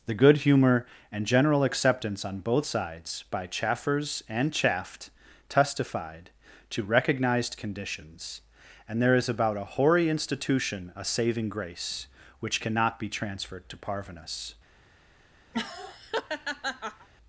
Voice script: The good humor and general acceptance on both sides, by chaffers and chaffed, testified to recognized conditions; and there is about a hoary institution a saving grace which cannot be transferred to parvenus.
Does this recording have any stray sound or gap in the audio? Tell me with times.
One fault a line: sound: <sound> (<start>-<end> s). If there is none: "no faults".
sound: laugh (15.5-17.1 s)